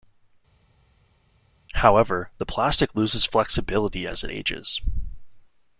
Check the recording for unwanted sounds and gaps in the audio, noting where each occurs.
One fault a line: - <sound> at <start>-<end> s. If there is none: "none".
none